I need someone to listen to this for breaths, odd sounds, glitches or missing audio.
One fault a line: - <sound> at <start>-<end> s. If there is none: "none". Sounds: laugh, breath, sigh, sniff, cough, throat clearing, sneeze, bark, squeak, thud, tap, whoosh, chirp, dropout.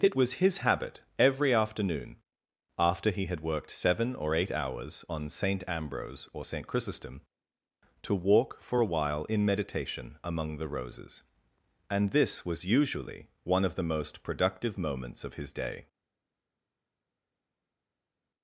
none